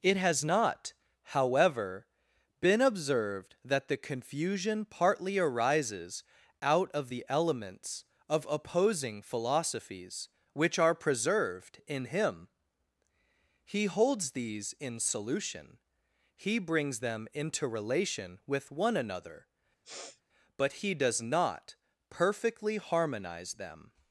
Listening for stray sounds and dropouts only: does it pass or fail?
fail